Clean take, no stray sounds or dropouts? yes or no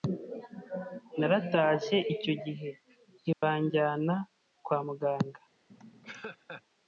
no